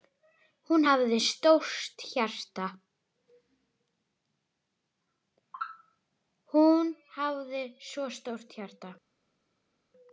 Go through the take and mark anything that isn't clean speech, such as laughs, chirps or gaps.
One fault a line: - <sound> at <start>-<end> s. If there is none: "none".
none